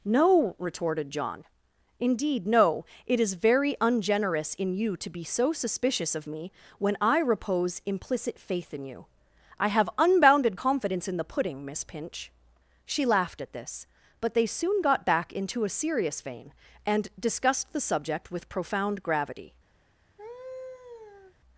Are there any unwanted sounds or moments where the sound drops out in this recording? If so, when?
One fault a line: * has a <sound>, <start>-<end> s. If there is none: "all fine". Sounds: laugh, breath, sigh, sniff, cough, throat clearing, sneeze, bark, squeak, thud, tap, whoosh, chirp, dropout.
* has a laugh, 20.2-21.4 s